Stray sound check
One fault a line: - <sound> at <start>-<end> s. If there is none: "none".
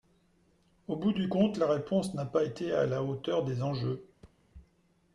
- thud at 4.2-4.4 s